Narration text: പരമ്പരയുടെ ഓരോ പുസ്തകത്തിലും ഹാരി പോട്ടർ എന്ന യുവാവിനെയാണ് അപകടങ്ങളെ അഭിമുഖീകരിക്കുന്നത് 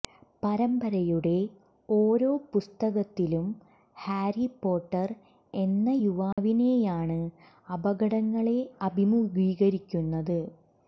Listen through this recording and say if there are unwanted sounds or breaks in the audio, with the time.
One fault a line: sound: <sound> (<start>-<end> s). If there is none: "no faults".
sound: dropout (6.3-6.4 s)